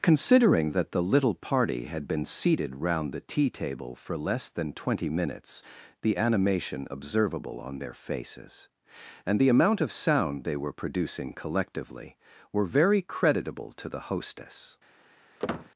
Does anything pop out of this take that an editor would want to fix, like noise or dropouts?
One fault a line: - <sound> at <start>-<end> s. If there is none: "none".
- squeak at 15.4-15.7 s